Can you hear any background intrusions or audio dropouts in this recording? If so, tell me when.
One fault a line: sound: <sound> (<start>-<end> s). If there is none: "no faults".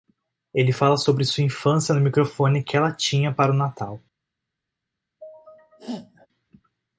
sound: sneeze (5.2-6.3 s)